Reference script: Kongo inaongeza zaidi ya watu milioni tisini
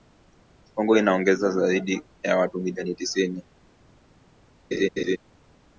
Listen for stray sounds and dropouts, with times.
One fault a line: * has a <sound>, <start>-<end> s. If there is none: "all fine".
* has a laugh, 4.7-5.2 s